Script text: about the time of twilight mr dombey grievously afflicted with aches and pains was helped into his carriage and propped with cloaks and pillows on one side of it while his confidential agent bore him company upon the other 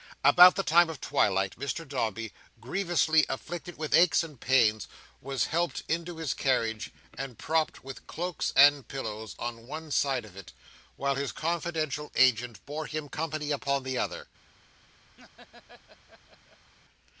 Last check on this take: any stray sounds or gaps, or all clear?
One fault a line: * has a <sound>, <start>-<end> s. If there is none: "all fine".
* has a laugh, 15.2-16.7 s